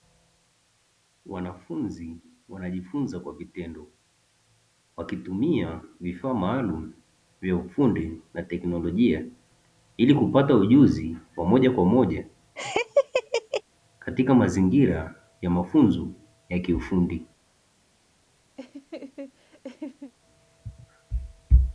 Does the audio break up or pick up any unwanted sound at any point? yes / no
yes